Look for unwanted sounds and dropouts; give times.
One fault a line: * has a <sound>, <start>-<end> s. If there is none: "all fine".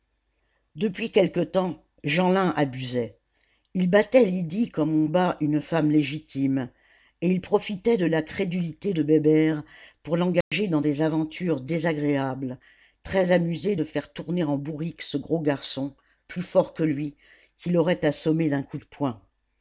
* has a dropout, 10.4-10.5 s